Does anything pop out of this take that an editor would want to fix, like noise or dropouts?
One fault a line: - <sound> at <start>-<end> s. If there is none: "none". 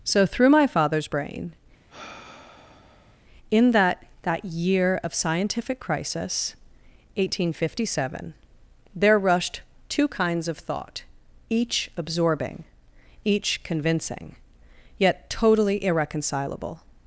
- sigh at 1.9-3.2 s